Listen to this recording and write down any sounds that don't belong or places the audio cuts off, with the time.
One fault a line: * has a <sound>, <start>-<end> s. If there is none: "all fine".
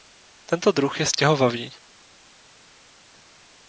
all fine